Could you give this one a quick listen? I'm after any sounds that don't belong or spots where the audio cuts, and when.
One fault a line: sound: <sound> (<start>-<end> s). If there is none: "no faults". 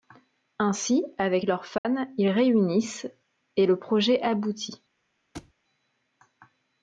sound: dropout (1.8-1.8 s)
sound: thud (5.3-5.5 s)